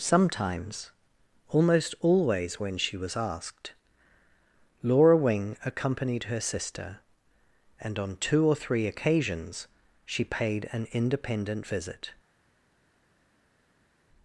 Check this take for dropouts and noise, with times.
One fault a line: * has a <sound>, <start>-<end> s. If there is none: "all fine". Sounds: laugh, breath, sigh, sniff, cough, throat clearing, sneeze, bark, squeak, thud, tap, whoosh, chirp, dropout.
all fine